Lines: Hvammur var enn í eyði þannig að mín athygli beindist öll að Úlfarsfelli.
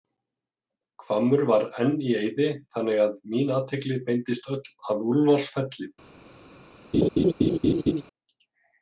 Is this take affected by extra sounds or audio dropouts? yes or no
yes